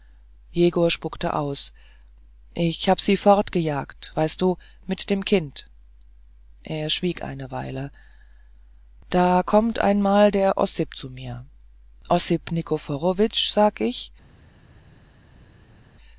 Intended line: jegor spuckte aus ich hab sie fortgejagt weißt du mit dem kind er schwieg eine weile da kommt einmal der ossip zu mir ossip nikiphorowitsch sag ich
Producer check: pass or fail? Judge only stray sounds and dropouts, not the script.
pass